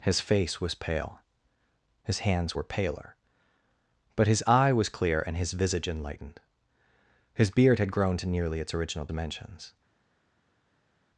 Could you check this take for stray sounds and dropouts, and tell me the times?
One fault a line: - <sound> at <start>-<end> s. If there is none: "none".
none